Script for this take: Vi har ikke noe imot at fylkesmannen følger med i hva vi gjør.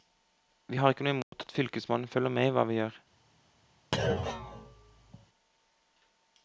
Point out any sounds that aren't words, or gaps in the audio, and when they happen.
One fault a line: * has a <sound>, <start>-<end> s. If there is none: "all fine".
* has a dropout, 1.2-1.3 s
* has a thud, 3.9-5.3 s